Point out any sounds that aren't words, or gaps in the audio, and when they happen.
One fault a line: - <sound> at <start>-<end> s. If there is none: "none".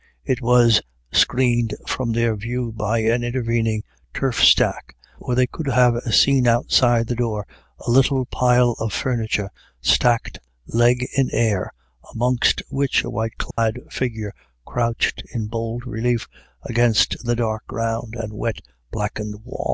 - dropout at 13.5-13.6 s